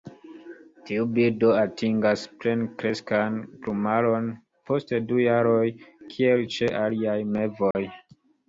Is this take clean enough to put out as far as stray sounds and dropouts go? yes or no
no